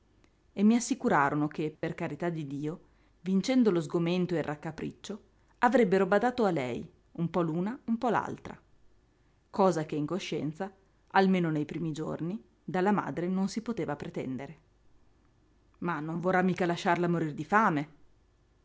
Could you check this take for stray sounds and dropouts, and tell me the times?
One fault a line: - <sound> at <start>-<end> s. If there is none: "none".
- dropout at 1.8-1.8 s